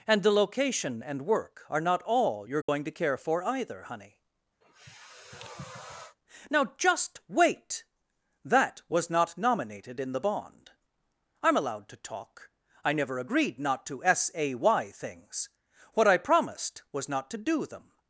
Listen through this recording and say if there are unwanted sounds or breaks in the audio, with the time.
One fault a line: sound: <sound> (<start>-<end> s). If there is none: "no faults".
sound: dropout (2.6-2.7 s)
sound: sniff (4.6-6.2 s)